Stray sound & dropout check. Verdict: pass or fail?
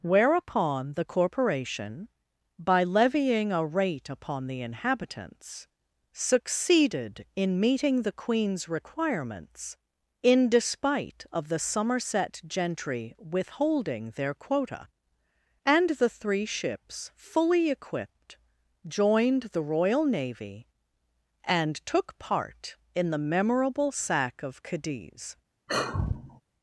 fail